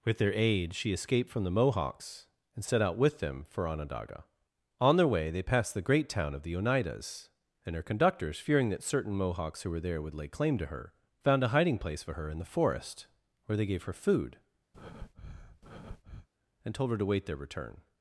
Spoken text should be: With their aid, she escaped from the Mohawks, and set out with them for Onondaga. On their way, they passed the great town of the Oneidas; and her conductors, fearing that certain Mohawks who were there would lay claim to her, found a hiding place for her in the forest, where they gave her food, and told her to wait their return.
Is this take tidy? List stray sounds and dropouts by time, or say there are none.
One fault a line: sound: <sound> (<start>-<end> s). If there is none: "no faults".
sound: breath (14.7-16.3 s)